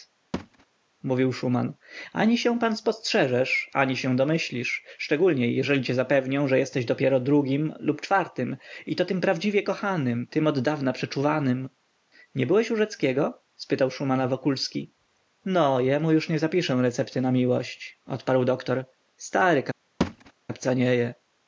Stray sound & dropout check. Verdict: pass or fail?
fail